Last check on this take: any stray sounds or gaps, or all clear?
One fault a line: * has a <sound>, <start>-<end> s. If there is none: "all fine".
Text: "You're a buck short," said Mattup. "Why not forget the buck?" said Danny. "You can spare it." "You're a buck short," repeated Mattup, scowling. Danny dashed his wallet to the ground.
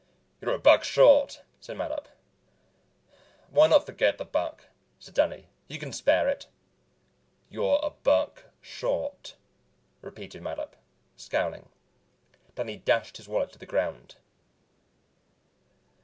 all fine